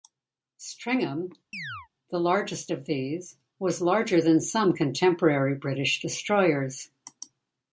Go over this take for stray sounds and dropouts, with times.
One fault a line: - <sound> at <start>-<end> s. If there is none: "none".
- chirp at 1.5-1.9 s